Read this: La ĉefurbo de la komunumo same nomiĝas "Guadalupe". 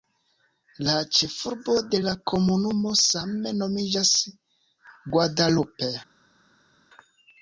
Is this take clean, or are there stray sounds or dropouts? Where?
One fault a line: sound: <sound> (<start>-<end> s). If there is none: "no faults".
no faults